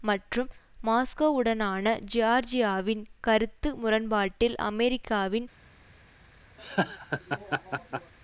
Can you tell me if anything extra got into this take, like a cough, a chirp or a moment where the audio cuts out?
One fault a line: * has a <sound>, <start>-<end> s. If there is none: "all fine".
* has a laugh, 6.6-8.1 s